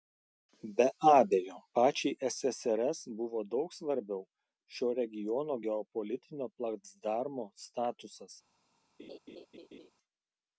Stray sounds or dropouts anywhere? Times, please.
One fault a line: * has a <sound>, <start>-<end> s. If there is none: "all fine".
* has a laugh, 9.0-9.9 s